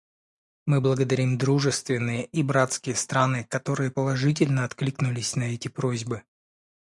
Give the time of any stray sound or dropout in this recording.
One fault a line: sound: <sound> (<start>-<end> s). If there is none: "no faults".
no faults